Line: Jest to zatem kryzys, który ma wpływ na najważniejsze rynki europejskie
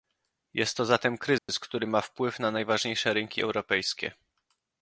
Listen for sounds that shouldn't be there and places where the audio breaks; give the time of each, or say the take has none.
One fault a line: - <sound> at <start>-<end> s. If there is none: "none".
- dropout at 1.4-1.5 s